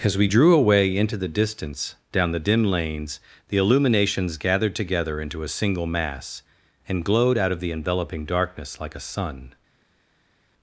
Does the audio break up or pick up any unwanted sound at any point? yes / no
no